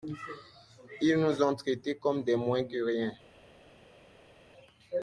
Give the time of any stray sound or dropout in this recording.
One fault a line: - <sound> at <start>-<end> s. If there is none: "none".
none